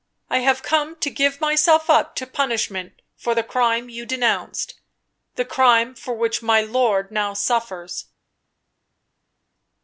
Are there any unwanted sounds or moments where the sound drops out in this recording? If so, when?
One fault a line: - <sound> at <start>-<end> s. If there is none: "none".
none